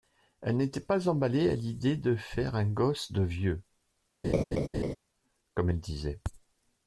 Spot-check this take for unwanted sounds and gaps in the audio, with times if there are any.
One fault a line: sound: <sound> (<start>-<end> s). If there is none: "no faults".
sound: laugh (4.2-5.0 s)